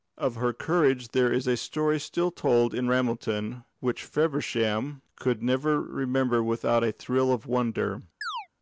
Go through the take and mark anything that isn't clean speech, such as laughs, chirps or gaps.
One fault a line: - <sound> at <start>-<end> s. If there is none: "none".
- chirp at 8.2-8.5 s